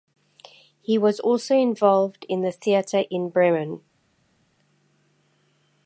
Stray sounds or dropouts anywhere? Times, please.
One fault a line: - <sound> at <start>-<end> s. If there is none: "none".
none